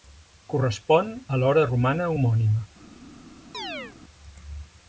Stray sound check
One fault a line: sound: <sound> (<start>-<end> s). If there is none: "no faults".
sound: chirp (3.5-4.0 s)